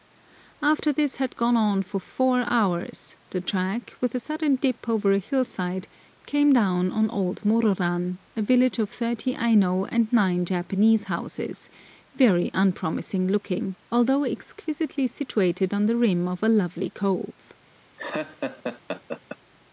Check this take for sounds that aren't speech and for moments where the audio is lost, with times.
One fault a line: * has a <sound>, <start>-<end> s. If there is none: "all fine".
* has a laugh, 18.0-19.4 s